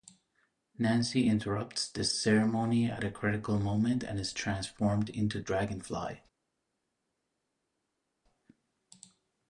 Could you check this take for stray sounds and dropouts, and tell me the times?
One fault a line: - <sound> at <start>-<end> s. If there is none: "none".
none